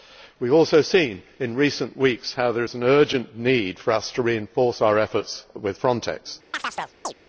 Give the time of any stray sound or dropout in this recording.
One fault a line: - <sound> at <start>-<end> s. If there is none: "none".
- chirp at 6.5-7.1 s